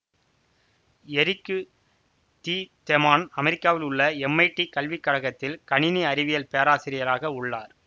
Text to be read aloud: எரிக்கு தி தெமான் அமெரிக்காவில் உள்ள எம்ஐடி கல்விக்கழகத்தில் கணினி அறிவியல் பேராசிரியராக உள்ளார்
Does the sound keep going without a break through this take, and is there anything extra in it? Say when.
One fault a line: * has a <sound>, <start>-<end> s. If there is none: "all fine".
all fine